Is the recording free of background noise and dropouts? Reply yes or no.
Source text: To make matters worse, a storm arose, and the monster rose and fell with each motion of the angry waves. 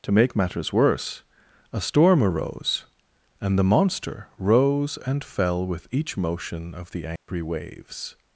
no